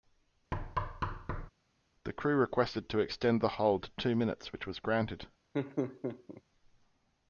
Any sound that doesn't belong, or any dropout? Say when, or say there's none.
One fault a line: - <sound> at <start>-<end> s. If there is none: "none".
- thud at 0.5-1.5 s
- laugh at 5.5-6.4 s